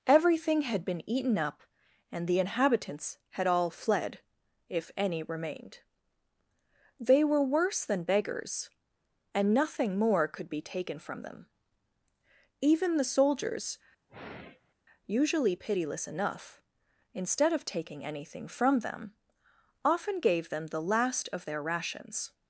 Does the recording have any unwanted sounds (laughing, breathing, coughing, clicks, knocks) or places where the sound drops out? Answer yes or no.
yes